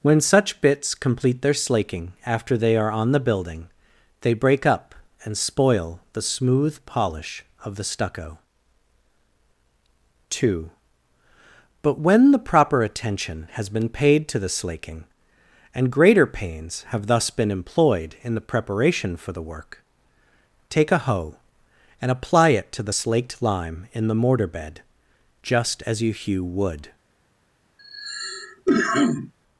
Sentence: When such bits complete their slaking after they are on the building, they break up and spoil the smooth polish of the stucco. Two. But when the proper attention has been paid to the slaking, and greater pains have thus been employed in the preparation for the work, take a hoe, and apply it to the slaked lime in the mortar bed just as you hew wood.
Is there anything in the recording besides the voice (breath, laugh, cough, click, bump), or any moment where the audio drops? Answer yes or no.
yes